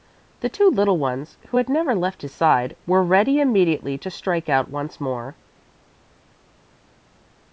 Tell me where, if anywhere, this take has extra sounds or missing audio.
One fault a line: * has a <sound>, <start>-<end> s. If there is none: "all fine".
all fine